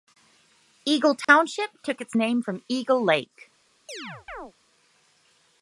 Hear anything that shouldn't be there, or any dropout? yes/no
yes